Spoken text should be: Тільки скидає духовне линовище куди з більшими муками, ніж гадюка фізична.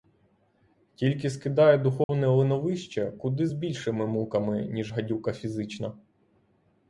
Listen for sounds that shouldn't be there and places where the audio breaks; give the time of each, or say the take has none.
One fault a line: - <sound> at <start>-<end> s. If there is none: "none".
- dropout at 2.0-2.1 s